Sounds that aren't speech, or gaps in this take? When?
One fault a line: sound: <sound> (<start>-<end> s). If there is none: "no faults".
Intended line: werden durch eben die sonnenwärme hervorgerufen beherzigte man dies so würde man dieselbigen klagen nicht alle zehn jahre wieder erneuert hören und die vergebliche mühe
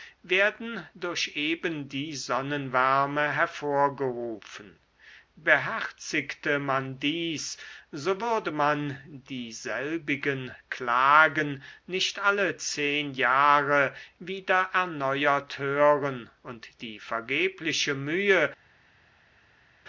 no faults